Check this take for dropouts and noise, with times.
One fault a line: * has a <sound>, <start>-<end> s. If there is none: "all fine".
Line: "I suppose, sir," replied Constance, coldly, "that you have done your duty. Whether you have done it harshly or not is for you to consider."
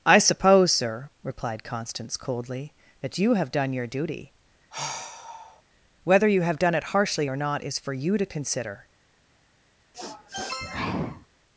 * has a sigh, 4.7-5.6 s
* has a sniff, 9.9-11.3 s